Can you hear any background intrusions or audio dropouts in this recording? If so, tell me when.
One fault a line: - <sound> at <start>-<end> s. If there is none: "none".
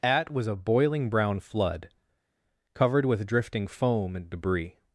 none